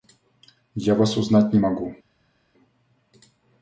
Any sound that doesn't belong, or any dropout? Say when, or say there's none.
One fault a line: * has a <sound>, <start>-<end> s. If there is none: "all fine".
all fine